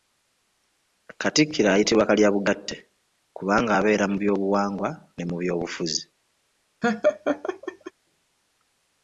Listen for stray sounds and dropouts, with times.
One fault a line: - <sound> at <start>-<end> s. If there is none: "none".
- laugh at 6.8-7.9 s